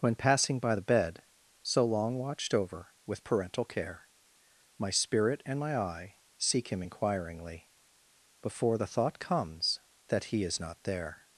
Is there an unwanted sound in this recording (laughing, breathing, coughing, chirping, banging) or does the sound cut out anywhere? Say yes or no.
no